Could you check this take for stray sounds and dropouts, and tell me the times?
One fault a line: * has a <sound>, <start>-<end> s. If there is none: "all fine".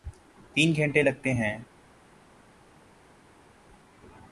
all fine